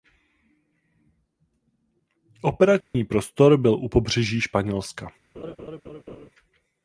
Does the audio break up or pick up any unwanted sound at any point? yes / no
yes